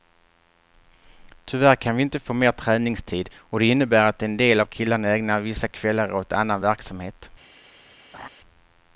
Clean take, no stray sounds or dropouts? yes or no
no